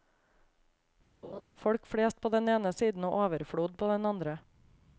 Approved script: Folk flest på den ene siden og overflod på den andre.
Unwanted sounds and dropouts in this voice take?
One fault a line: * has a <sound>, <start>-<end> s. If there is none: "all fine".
* has a laugh, 1.2-1.4 s